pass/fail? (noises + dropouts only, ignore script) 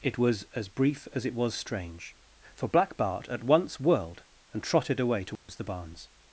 fail